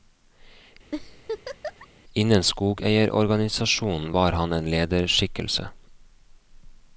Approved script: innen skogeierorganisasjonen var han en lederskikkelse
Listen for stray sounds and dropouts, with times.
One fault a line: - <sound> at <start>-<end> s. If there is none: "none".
- laugh at 0.9-1.9 s